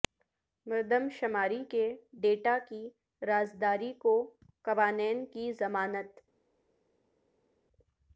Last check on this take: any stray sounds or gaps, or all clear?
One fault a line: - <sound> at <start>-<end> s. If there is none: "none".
none